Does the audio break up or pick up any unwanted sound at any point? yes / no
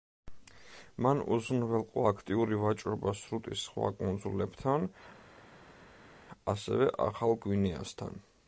no